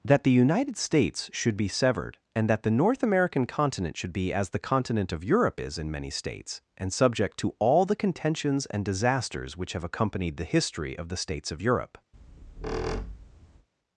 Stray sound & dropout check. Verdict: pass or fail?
fail